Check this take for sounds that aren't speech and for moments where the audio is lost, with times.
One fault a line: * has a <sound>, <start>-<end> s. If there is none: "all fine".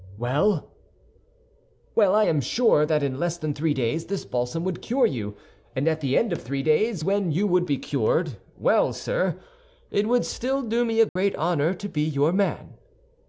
* has a dropout, 11.1-11.2 s